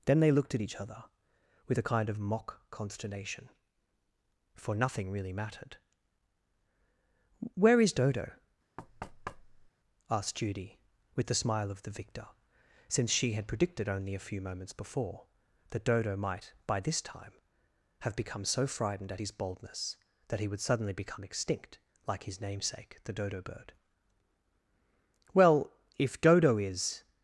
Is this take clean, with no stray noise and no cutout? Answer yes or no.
no